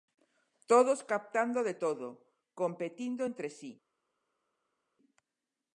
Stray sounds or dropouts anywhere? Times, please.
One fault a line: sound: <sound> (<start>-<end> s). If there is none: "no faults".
no faults